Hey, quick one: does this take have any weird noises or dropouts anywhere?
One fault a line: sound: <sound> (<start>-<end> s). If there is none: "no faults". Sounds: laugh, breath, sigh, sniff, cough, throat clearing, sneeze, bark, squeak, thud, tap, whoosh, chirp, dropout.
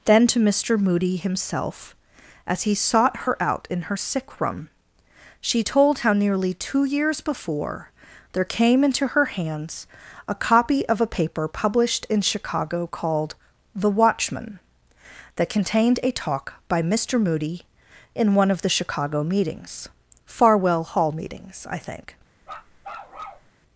sound: bark (22.4-23.5 s)